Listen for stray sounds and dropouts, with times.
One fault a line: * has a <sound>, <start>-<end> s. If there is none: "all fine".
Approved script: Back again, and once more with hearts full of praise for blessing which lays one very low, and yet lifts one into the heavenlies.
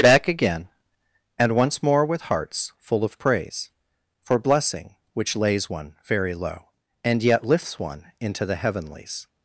all fine